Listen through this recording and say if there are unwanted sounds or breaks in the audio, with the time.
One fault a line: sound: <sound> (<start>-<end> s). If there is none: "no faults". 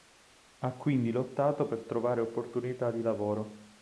no faults